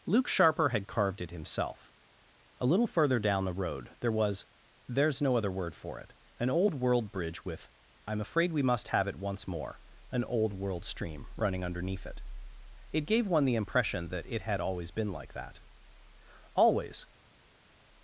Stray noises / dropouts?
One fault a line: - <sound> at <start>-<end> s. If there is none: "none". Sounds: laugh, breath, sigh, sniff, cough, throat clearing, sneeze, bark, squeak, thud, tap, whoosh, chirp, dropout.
none